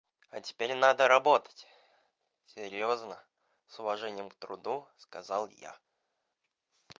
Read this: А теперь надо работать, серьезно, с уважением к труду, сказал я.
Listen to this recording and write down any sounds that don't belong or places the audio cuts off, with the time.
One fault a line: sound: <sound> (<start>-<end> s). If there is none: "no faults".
no faults